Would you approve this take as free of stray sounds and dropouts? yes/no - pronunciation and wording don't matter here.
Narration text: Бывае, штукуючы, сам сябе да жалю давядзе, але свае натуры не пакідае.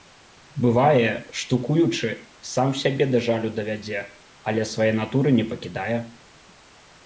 yes